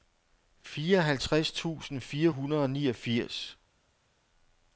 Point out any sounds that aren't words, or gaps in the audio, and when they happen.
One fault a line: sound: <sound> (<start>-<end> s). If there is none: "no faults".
no faults